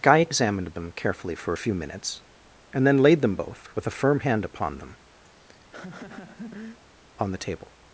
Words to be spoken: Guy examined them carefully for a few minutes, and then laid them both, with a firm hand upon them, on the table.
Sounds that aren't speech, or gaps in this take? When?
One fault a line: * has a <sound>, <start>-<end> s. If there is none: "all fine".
* has a laugh, 5.2-6.8 s